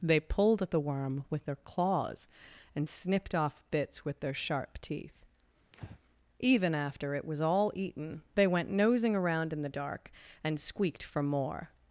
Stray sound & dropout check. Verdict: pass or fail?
fail